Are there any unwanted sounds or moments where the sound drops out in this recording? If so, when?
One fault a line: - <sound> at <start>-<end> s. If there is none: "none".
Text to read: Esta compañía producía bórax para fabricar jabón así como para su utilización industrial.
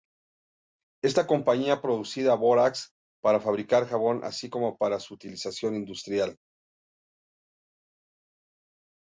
none